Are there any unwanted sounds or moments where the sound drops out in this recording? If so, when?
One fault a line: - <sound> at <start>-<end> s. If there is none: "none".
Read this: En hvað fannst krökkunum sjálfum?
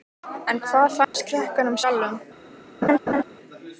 - dropout at 1.0-1.1 s
- laugh at 2.8-3.2 s